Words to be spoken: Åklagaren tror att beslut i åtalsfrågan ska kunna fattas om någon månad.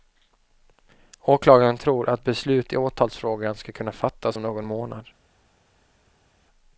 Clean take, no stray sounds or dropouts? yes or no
yes